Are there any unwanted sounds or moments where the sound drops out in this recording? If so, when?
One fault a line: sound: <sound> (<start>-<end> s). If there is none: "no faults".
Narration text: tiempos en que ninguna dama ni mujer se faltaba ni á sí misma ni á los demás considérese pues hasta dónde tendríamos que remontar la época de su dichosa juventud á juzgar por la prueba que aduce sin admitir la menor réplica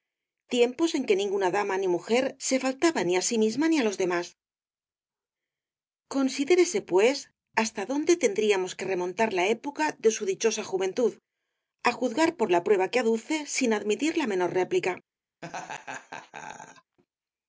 sound: laugh (15.4-17.0 s)